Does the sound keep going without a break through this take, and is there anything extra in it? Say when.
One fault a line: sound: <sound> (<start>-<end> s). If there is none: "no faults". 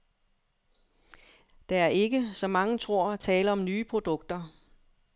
no faults